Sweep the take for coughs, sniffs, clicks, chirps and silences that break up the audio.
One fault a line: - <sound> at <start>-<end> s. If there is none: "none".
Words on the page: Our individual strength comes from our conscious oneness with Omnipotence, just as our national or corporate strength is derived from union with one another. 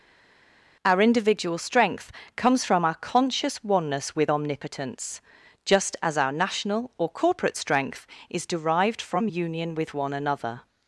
none